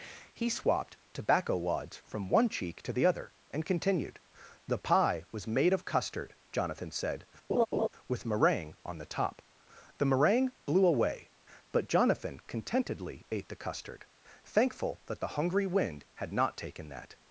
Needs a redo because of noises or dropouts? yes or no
yes